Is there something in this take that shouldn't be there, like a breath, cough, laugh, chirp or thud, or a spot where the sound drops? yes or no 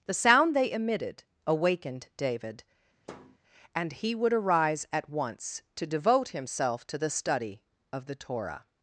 yes